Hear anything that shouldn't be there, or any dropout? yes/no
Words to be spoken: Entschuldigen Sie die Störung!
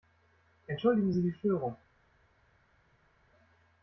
no